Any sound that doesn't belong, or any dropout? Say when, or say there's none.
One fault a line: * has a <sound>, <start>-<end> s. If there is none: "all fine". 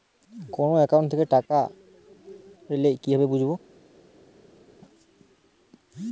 all fine